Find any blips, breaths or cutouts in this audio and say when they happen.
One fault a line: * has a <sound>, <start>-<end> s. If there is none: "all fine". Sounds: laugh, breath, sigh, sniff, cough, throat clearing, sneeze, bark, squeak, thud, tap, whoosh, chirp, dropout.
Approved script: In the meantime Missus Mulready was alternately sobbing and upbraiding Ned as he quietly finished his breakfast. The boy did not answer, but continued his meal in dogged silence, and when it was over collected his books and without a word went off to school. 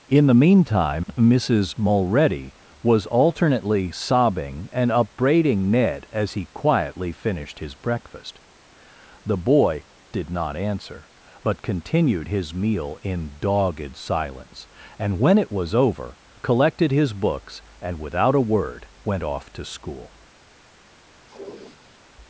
* has a sniff, 21.2-22.0 s